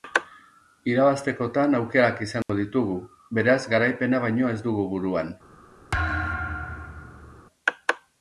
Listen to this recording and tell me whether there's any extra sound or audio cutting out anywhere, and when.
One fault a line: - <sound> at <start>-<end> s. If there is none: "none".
- dropout at 2.4-2.5 s
- thud at 5.9-7.4 s